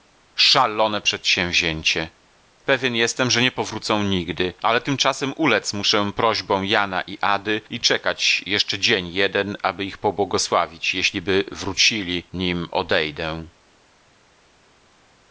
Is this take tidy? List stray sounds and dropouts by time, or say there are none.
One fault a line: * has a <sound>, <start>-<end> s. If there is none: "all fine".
all fine